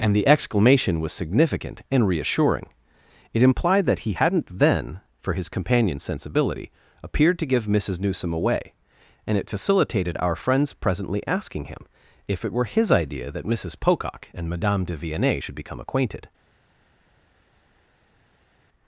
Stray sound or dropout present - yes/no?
no